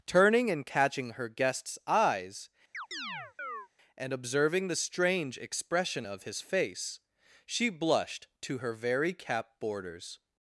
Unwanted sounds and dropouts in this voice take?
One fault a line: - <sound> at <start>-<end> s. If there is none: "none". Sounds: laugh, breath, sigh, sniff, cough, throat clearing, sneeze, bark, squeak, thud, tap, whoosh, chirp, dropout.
- chirp at 2.7-3.7 s